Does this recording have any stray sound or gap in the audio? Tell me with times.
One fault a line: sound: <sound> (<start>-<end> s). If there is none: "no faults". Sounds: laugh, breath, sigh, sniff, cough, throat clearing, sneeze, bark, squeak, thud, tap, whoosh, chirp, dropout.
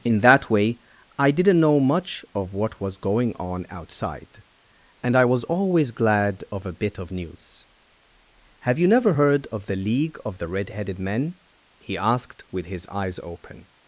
no faults